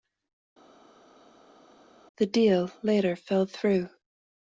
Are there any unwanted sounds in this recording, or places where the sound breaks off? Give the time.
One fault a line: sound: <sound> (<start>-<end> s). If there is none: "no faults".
no faults